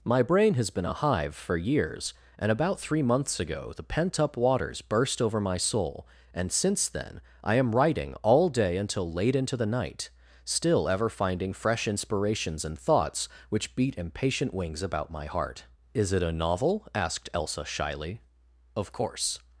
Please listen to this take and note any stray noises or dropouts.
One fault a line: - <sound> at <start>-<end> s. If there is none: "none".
none